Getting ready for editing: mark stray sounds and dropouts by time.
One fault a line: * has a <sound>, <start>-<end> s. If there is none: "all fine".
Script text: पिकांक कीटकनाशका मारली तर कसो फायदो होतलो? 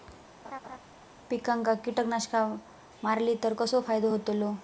* has a laugh, 0.4-0.8 s